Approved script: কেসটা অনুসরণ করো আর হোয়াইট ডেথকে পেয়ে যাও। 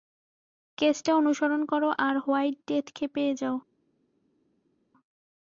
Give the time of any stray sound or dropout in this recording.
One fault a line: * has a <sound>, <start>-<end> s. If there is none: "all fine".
all fine